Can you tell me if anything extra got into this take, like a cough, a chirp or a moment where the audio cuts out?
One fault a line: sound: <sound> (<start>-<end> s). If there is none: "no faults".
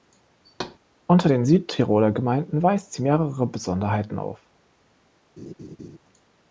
sound: thud (0.4-0.8 s)
sound: laugh (5.4-6.0 s)